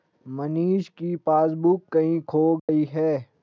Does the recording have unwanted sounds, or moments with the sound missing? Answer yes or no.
yes